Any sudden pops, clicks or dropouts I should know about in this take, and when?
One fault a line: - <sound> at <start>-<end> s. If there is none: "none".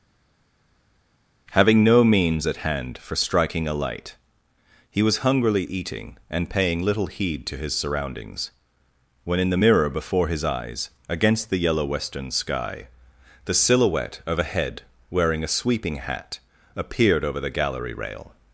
none